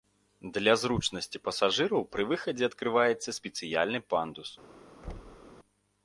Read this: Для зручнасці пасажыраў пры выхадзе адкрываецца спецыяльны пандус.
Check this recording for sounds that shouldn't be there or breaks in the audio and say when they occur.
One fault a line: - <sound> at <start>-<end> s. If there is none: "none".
- thud at 5.0-5.5 s